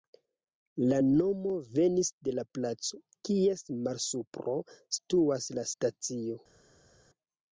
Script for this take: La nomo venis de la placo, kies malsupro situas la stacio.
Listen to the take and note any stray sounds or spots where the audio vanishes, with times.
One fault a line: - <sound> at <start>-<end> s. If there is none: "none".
none